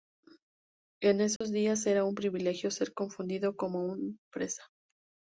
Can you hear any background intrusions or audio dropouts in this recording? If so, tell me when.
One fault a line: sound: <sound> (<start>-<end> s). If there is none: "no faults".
sound: dropout (1.4-1.4 s)